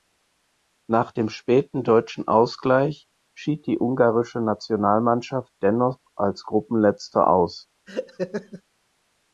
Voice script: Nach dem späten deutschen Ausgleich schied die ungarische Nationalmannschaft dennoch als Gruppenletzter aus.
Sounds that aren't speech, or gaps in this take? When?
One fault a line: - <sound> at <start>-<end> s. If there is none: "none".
- laugh at 7.9-8.6 s